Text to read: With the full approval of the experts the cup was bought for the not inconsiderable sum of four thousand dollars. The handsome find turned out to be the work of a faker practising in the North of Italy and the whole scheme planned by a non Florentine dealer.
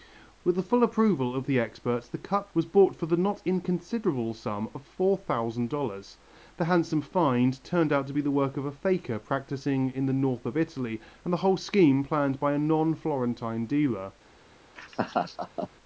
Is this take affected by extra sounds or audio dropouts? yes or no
yes